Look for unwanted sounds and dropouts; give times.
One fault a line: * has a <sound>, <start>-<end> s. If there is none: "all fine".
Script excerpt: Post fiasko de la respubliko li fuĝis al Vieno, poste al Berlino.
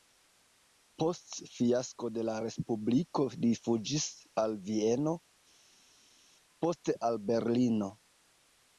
all fine